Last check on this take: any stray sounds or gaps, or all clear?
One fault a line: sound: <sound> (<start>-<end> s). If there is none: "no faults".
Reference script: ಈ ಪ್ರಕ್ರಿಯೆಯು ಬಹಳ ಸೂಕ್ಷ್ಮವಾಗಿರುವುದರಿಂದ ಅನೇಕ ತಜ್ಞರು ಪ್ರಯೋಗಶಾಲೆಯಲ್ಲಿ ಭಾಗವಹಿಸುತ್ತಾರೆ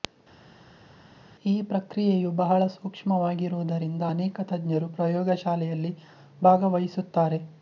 no faults